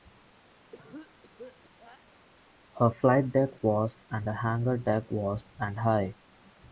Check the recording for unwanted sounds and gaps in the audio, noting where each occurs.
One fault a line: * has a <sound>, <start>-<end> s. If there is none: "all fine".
* has a cough, 0.7-2.2 s